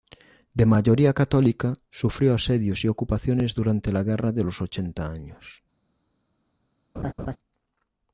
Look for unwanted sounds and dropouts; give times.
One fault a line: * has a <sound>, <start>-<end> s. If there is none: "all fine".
* has a laugh, 7.0-7.4 s